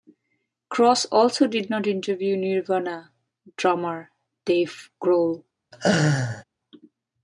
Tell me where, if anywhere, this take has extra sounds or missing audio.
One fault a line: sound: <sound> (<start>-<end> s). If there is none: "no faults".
sound: laugh (5.7-6.4 s)